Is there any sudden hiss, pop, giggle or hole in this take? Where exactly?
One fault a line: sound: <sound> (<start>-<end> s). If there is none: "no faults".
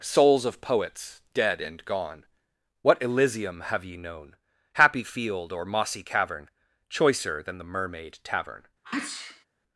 sound: sneeze (8.8-9.5 s)